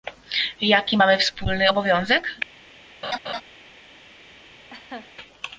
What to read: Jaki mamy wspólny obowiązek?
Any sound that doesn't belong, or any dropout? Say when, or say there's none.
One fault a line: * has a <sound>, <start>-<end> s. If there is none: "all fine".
* has a laugh, 3.0-3.4 s
* has a laugh, 4.7-5.1 s